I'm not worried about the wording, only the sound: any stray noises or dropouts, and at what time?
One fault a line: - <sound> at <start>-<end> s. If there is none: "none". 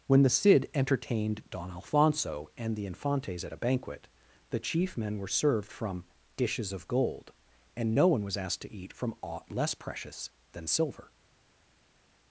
none